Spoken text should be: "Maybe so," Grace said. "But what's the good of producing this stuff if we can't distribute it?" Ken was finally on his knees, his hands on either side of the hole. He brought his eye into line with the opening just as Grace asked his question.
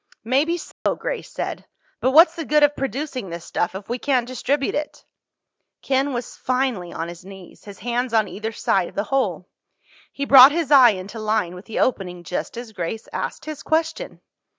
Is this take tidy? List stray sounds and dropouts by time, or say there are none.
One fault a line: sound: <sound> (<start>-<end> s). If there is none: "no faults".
sound: dropout (0.7-0.9 s)